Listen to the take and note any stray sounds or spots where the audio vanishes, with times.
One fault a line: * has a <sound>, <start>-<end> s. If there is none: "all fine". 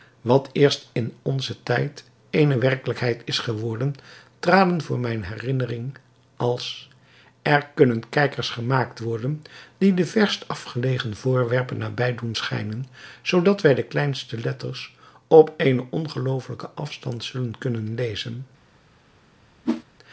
* has a whoosh, 19.6-19.8 s